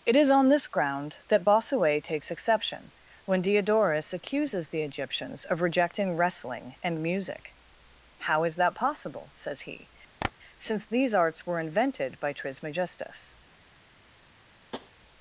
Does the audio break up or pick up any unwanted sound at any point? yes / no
yes